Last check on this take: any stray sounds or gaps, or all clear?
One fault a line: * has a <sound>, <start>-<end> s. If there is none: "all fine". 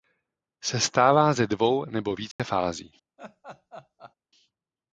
* has a dropout, 2.3-2.4 s
* has a laugh, 3.2-4.2 s